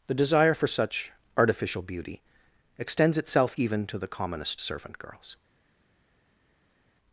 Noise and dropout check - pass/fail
pass